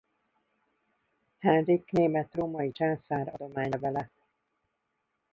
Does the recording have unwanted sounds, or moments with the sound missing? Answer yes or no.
no